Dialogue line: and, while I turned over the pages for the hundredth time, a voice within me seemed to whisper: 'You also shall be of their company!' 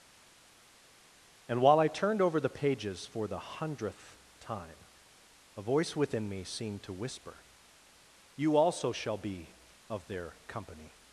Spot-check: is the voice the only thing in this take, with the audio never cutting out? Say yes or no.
yes